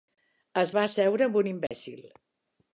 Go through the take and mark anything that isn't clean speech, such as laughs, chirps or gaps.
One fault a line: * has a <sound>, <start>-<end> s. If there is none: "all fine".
* has a dropout, 1.7-1.7 s